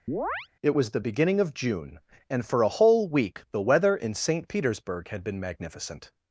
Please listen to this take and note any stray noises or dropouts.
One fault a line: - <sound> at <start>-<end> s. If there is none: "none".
- chirp at 0.1-0.5 s